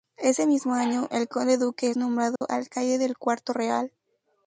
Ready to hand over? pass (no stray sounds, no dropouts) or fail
fail